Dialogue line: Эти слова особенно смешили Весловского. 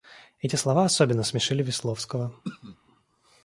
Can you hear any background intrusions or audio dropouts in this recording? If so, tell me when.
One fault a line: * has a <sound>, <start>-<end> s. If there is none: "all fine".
* has a throat clearing, 2.4-2.8 s